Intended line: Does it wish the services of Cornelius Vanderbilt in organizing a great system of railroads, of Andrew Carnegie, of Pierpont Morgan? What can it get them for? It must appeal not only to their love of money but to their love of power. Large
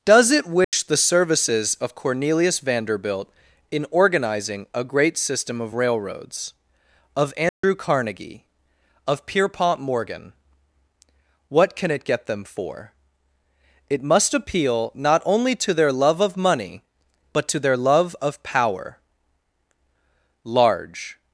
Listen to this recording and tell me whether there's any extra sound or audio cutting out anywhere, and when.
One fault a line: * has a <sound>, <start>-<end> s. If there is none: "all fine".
* has a dropout, 0.6-0.7 s
* has a dropout, 7.5-7.6 s